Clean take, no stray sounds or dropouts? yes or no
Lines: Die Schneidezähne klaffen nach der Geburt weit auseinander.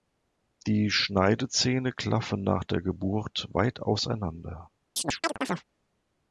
no